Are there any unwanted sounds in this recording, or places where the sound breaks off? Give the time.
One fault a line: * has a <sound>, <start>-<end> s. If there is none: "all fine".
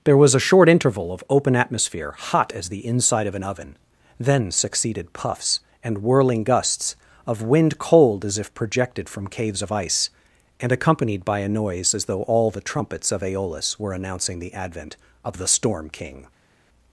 all fine